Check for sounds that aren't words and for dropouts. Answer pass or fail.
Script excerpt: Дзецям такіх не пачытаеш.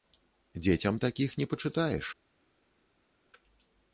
pass